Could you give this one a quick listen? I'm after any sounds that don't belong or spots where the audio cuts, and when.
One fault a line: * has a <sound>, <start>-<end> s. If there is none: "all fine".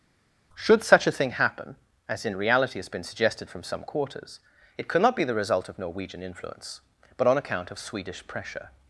all fine